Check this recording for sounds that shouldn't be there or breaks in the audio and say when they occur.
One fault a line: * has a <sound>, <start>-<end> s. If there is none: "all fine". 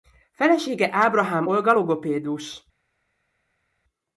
all fine